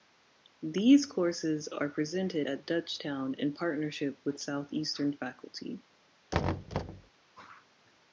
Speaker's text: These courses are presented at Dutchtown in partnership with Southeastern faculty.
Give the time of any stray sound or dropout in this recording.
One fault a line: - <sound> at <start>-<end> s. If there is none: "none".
- thud at 6.3-7.1 s